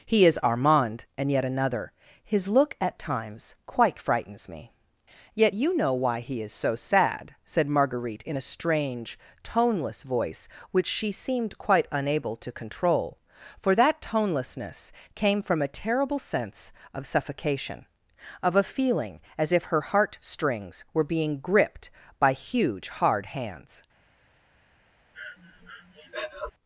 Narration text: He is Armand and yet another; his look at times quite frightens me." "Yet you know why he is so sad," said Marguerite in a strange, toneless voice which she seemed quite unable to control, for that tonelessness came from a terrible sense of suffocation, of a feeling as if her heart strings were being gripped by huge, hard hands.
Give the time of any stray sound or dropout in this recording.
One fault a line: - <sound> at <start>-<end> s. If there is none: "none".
- breath at 25.1-26.5 s